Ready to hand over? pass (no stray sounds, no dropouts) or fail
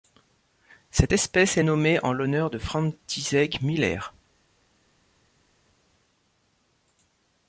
pass